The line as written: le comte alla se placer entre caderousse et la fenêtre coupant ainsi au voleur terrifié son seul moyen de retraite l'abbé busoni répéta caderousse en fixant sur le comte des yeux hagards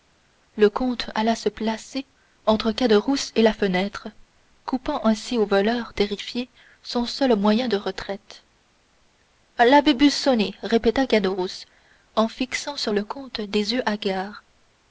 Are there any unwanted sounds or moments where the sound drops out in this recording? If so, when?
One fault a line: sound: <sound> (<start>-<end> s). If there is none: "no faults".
no faults